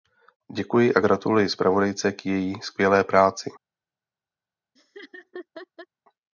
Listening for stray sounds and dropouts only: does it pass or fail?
fail